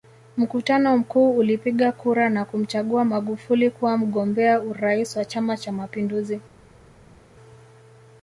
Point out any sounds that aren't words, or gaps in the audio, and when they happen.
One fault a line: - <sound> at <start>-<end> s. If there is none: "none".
none